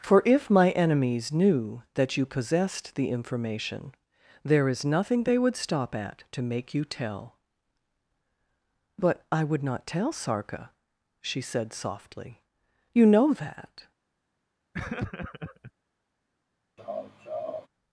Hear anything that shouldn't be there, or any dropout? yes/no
yes